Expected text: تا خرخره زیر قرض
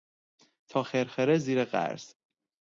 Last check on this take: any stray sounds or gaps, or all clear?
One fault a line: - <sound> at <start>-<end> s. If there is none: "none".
none